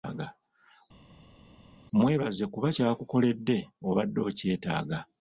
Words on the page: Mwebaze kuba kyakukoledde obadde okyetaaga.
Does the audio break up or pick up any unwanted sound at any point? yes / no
no